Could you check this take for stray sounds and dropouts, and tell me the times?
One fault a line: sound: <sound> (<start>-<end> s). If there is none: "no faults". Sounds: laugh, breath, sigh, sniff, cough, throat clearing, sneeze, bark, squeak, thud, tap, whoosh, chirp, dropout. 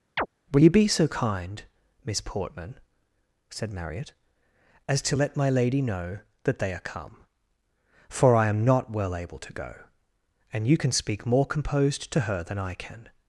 sound: chirp (0.2-0.3 s)